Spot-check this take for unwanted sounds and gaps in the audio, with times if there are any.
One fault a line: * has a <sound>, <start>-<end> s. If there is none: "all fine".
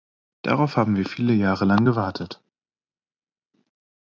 all fine